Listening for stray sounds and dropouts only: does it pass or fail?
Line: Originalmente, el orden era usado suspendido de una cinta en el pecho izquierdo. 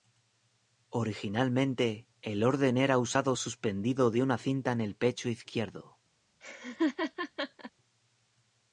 fail